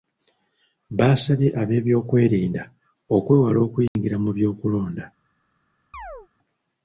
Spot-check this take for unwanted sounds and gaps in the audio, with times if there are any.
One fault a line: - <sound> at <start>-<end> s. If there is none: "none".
- dropout at 3.9-4.0 s
- chirp at 5.9-6.3 s